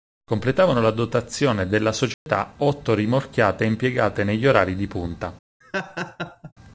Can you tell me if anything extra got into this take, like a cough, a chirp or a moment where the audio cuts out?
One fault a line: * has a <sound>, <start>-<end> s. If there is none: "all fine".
* has a dropout, 2.1-2.3 s
* has a laugh, 5.6-6.5 s